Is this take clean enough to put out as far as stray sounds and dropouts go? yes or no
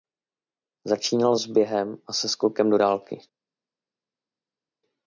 yes